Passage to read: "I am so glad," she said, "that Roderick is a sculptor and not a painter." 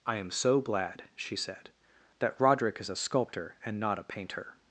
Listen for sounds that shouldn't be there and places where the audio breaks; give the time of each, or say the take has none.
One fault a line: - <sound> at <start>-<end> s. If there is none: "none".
none